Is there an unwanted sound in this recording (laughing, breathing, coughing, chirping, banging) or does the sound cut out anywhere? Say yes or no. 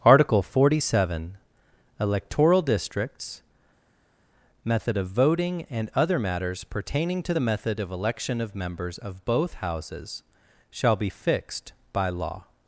no